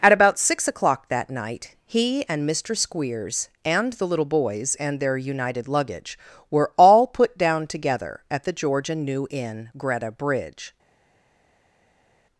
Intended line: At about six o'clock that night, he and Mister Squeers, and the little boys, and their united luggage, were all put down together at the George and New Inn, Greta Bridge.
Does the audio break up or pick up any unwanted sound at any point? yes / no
no